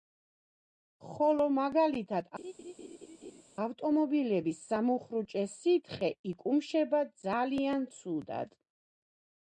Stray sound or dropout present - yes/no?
yes